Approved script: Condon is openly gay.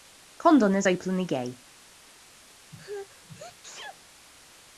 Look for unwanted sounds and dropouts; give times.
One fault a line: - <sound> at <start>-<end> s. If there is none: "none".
- sneeze at 2.7-4.0 s